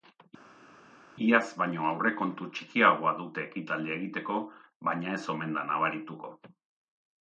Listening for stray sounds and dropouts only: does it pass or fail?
pass